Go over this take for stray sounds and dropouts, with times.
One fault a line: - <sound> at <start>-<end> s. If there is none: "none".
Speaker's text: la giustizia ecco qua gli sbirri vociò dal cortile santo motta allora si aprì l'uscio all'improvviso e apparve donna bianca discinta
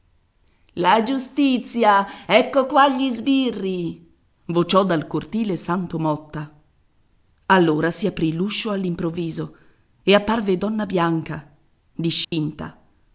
- dropout at 12.2-12.3 s